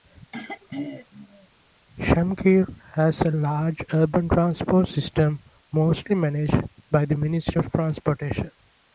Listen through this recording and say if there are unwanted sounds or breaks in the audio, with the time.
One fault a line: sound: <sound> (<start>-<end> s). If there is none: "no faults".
sound: throat clearing (0.3-1.5 s)